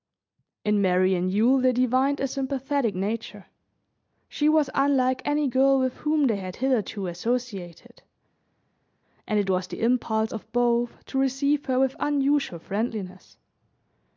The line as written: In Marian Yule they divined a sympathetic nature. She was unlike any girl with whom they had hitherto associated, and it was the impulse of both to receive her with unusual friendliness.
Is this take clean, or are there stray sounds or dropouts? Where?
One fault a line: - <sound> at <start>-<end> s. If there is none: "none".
none